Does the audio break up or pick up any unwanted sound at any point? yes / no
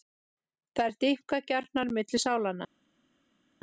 no